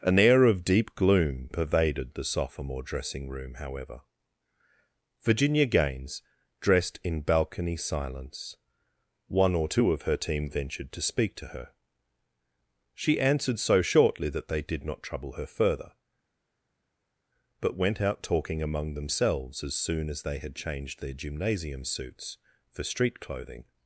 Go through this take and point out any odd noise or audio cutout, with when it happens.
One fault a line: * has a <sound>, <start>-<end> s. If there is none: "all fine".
all fine